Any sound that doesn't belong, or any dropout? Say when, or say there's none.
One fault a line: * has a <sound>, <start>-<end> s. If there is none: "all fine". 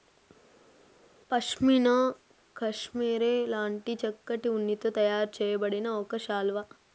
all fine